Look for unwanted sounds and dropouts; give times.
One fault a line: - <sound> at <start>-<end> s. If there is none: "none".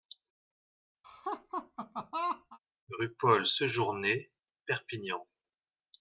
- laugh at 1.0-2.6 s